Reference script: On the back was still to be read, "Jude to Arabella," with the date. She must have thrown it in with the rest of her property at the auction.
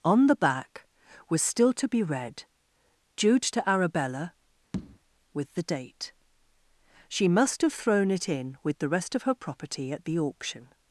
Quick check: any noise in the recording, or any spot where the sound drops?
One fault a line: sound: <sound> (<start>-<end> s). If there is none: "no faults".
sound: tap (4.7-5.0 s)